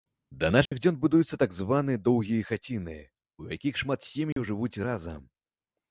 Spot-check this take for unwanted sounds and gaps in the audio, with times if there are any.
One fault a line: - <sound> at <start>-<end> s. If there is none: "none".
- dropout at 0.7-0.7 s
- dropout at 4.3-4.4 s